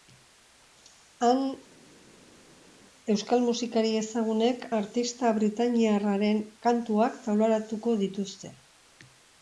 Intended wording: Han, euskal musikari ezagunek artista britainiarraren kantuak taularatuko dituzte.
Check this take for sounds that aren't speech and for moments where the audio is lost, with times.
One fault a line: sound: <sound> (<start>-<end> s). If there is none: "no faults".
no faults